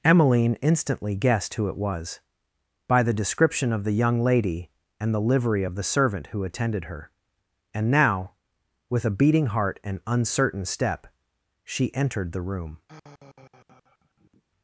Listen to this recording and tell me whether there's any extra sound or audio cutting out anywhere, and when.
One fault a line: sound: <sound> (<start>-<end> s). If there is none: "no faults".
sound: sigh (12.9-14.4 s)